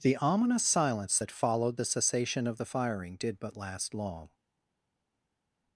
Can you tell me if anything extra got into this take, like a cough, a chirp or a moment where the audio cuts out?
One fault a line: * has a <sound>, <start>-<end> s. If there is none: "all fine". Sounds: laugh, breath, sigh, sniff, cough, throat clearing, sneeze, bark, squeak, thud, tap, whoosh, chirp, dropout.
all fine